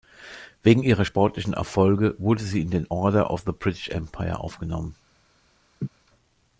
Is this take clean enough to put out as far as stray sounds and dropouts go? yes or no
no